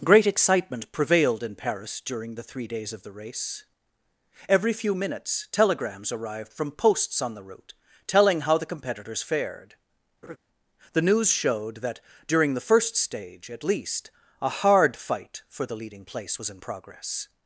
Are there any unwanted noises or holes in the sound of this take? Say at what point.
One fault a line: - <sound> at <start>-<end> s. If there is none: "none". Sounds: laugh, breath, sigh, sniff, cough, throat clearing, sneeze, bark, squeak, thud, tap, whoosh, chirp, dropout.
- laugh at 10.2-10.4 s